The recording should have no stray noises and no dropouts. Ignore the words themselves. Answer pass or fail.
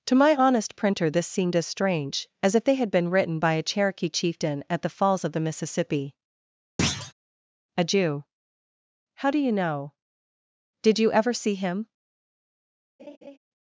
fail